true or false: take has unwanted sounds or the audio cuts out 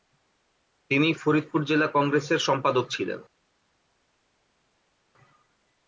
false